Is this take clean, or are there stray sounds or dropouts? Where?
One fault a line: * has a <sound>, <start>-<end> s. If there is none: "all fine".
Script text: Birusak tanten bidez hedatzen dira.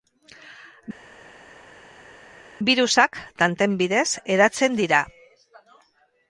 all fine